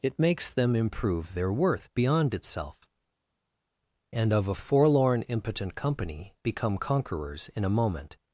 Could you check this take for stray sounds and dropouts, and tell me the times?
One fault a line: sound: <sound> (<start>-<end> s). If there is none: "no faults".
no faults